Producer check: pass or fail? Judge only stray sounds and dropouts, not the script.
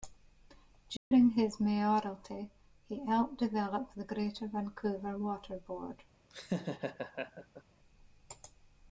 fail